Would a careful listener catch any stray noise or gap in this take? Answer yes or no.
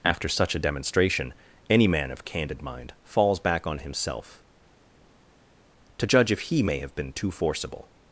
no